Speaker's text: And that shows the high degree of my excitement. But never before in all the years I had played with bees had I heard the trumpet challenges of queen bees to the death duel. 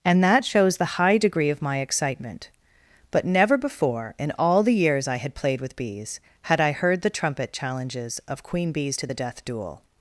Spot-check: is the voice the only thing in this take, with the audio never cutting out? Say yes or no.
yes